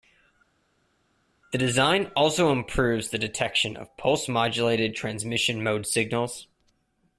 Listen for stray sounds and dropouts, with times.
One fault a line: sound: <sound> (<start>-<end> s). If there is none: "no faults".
no faults